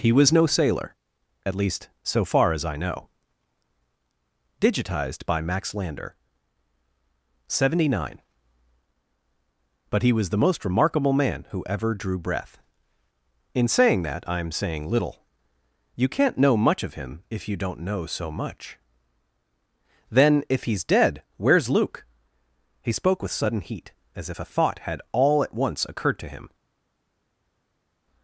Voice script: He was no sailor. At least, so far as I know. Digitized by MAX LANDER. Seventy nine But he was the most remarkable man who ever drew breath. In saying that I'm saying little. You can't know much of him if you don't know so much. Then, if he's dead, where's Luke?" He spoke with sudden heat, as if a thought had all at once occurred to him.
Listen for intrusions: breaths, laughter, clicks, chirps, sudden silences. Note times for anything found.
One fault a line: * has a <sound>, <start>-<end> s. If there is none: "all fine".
all fine